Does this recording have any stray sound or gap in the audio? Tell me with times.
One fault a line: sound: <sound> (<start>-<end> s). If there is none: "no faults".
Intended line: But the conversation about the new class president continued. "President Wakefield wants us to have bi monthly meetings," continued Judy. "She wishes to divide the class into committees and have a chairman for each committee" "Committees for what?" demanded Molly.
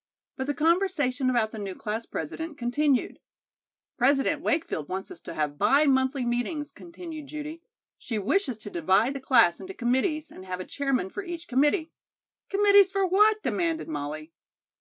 no faults